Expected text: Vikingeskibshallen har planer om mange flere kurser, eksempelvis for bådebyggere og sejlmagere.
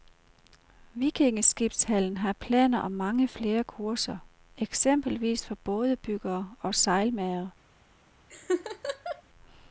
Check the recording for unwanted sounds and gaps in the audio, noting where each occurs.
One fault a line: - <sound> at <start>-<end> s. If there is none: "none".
- laugh at 8.3-9.2 s